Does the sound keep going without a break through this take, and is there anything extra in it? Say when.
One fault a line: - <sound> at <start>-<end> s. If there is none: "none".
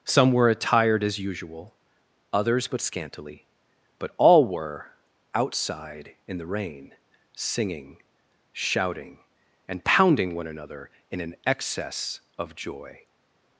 none